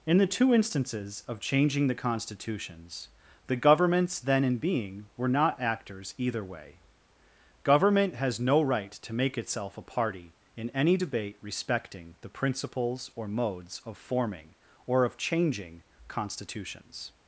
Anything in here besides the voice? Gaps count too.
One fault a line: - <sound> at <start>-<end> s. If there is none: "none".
none